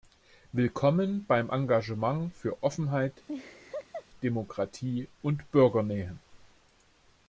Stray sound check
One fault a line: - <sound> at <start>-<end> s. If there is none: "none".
- laugh at 3.3-4.1 s